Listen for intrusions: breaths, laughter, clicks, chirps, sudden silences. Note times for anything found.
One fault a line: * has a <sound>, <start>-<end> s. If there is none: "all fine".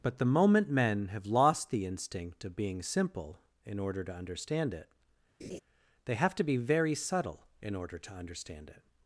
* has a laugh, 5.4-5.6 s